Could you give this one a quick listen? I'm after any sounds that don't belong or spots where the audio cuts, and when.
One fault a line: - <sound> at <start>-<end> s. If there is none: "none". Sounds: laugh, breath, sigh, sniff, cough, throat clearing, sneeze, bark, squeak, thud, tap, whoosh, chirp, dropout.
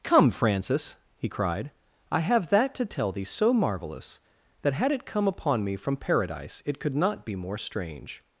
none